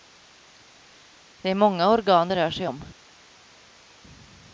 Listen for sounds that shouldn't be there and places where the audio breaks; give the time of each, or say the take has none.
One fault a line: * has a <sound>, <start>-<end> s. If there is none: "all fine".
all fine